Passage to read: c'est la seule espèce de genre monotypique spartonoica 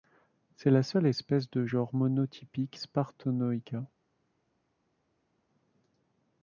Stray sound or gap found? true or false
false